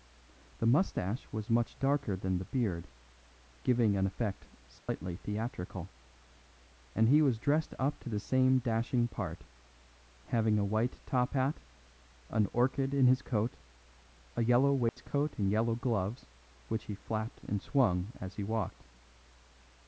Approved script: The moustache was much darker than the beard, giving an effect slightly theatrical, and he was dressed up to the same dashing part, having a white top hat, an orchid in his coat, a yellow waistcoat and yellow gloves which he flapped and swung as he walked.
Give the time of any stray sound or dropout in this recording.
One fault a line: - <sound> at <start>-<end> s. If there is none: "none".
- dropout at 4.8-4.9 s
- dropout at 14.9-15.0 s